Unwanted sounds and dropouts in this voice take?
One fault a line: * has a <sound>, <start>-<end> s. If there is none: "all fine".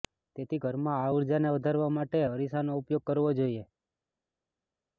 all fine